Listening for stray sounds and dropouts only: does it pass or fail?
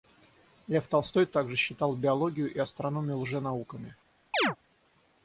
fail